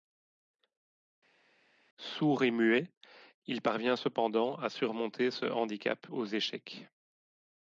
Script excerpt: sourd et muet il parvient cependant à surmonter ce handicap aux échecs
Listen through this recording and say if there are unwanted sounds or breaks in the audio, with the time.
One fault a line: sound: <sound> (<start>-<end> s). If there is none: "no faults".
no faults